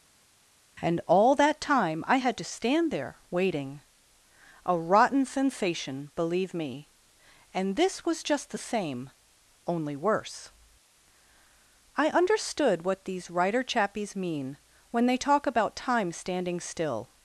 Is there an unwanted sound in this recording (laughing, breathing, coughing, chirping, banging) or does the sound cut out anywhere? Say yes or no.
no